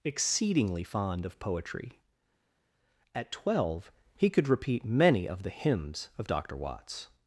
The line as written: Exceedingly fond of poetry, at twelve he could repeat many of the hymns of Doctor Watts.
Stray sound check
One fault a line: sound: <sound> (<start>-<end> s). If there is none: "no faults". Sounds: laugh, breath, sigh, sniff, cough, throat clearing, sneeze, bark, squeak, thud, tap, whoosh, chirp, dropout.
no faults